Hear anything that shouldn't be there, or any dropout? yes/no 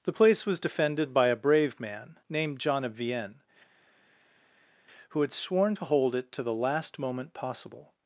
no